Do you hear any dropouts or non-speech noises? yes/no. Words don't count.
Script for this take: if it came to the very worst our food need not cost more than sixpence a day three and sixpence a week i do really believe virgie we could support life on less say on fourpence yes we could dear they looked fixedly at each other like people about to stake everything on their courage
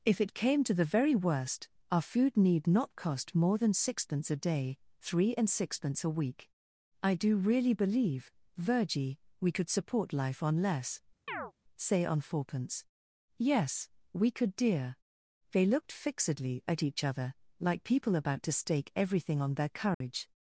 yes